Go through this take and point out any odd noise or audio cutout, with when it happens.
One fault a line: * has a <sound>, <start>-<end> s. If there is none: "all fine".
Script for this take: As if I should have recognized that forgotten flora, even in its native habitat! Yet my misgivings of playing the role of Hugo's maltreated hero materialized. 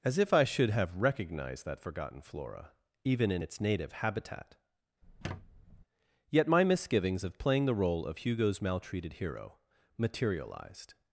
* has a squeak, 5.0-5.8 s